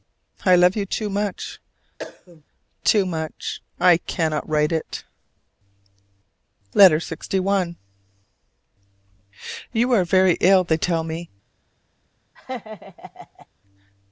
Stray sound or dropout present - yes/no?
yes